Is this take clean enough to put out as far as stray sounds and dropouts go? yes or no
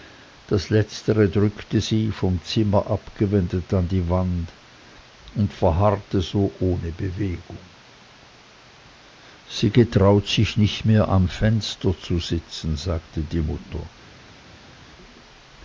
yes